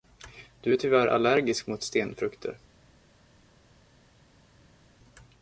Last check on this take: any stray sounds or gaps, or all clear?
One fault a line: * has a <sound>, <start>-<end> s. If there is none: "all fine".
all fine